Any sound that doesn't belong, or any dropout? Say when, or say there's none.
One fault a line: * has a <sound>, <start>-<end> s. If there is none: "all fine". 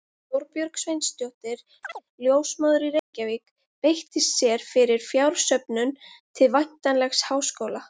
* has a chirp, 1.8-2.0 s
* has a dropout, 3.0-3.1 s